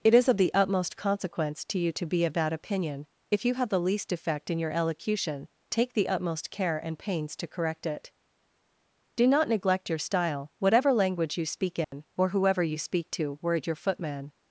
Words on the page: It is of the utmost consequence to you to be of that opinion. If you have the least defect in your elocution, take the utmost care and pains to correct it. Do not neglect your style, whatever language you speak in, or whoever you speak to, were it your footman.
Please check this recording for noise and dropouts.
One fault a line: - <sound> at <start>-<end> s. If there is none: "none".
- dropout at 11.8-11.9 s